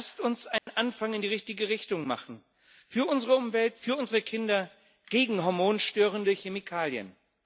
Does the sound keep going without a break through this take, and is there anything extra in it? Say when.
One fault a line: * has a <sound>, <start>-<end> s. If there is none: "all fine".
* has a dropout, 0.6-0.7 s